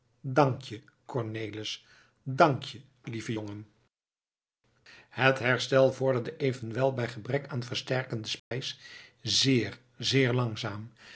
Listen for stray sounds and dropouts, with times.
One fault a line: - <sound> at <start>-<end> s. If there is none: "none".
- dropout at 8.4-8.5 s